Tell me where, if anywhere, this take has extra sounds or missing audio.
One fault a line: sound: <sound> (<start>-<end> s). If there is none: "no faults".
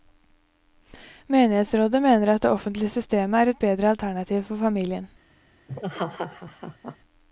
sound: laugh (5.7-7.0 s)